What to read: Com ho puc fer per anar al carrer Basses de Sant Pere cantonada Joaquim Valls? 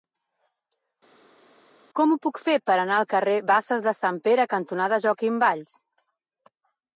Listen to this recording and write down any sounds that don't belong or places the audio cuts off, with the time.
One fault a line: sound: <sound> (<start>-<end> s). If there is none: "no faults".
no faults